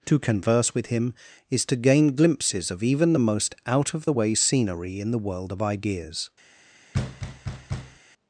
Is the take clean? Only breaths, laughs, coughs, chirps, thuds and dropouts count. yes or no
no